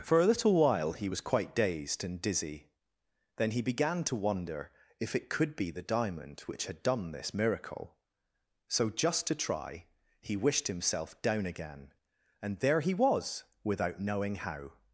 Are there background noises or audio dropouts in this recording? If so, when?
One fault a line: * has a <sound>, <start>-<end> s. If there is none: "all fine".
all fine